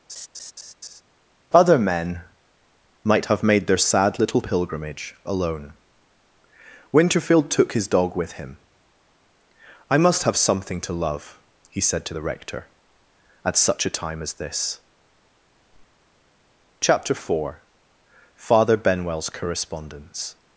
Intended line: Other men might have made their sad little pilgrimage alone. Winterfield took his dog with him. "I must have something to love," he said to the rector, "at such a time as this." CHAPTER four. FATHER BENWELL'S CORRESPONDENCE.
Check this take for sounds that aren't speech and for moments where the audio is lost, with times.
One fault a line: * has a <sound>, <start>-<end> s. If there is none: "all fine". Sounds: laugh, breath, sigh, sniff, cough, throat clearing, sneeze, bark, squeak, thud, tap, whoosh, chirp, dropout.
* has a laugh, 0.1-1.0 s